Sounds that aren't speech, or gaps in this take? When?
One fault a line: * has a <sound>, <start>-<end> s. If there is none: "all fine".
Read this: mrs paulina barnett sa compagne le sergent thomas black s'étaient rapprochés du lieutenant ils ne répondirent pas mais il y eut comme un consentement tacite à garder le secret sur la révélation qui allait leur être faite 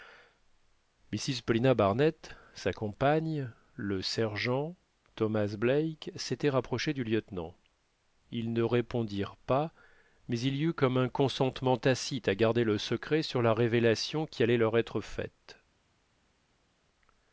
all fine